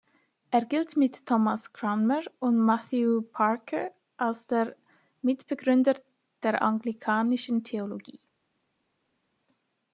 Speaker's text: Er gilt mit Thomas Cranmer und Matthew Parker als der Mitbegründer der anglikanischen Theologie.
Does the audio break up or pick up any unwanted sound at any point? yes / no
no